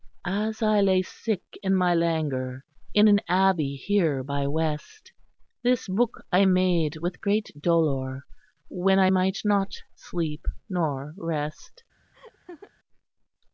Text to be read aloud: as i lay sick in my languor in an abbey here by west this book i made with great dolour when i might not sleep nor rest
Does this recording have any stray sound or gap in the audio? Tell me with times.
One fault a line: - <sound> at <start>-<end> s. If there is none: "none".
- laugh at 12.1-12.7 s